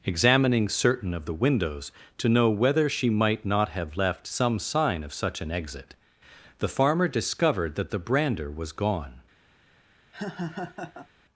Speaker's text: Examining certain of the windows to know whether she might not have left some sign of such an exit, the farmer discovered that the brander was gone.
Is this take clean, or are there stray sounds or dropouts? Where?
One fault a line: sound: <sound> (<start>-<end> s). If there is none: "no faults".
sound: laugh (10.1-11.1 s)